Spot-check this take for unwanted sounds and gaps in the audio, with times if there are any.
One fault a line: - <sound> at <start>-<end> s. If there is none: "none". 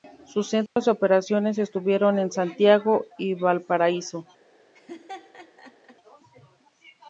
- dropout at 0.7-0.8 s
- laugh at 4.7-6.0 s